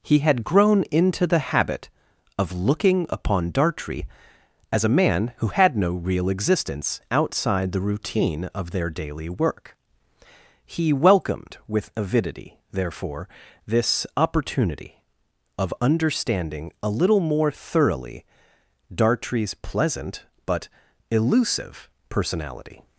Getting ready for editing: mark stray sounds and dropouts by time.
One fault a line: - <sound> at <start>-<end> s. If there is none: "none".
none